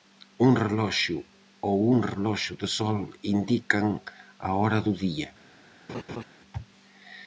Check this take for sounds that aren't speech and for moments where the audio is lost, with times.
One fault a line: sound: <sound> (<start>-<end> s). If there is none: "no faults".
sound: laugh (5.9-6.2 s)